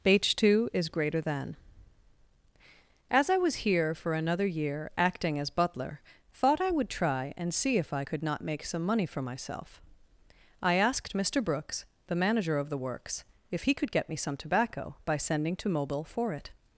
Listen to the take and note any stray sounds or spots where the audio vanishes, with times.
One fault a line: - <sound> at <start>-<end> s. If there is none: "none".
none